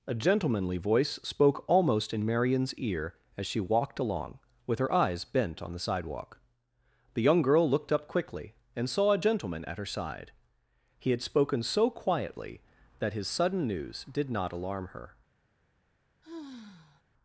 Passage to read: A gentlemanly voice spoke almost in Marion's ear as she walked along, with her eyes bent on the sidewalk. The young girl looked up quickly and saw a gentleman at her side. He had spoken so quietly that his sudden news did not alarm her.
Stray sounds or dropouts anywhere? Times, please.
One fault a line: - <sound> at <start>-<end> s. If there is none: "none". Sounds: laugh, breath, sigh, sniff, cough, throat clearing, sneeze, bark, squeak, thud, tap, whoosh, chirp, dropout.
- sigh at 16.2-17.0 s